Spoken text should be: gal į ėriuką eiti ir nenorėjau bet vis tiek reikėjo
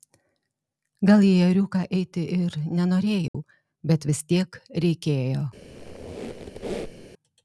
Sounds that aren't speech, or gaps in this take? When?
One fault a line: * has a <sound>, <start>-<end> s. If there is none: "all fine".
* has a dropout, 3.3-3.3 s
* has a squeak, 5.6-7.1 s